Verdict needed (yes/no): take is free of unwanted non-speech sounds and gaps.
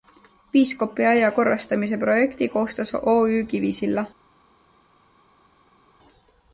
yes